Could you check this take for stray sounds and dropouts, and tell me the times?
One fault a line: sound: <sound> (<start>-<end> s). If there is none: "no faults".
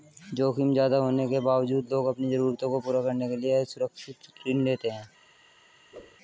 sound: whoosh (5.9-6.2 s)